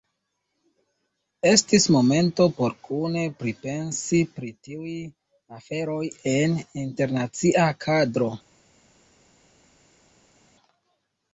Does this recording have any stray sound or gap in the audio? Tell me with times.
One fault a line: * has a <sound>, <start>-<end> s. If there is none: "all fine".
all fine